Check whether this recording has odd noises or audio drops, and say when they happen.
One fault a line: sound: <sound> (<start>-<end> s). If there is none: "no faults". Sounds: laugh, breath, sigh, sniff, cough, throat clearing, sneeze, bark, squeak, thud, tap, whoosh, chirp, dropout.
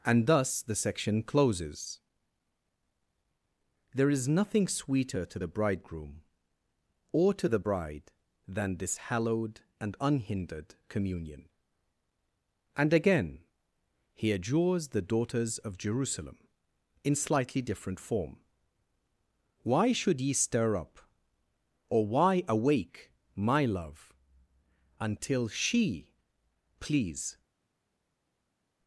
no faults